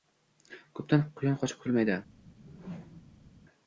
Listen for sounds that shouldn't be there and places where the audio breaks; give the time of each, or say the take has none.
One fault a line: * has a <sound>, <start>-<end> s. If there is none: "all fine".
* has a whoosh, 2.2-3.3 s